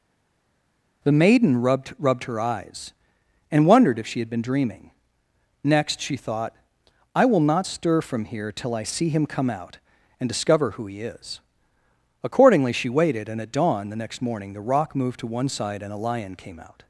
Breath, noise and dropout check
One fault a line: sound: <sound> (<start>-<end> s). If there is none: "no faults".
no faults